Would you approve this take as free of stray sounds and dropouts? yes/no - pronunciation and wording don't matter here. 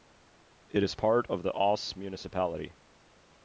yes